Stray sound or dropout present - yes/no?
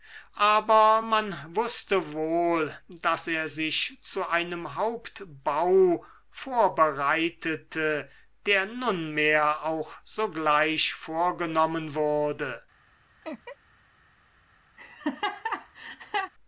yes